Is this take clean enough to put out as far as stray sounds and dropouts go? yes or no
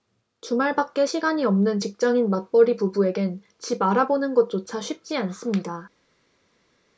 yes